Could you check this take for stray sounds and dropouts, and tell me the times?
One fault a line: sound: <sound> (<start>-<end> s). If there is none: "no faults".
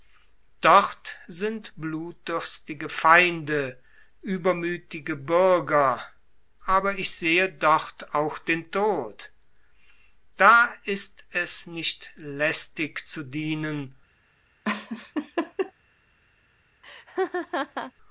sound: laugh (14.6-15.7 s)
sound: laugh (16.8-17.9 s)